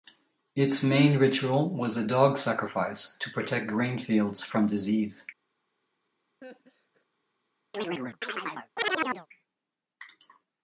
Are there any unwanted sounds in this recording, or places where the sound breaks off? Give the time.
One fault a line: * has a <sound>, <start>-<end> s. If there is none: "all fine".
* has a laugh, 6.4-7.1 s
* has a chirp, 7.7-9.3 s